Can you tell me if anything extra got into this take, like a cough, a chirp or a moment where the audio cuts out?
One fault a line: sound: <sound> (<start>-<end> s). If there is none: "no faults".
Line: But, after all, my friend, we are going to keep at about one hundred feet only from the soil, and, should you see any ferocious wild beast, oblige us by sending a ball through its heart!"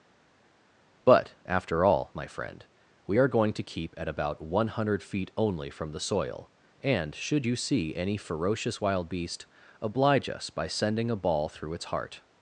no faults